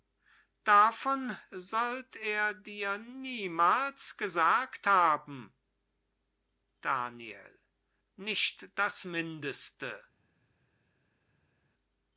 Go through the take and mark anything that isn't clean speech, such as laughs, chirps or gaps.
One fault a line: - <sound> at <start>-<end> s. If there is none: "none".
none